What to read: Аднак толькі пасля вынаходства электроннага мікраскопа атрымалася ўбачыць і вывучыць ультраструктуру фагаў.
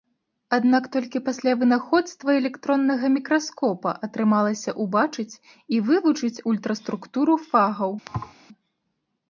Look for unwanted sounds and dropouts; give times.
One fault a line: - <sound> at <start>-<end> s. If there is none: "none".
- thud at 8.1-8.3 s